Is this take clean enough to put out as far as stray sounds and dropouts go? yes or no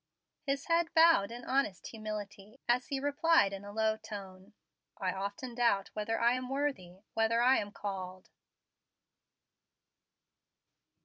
yes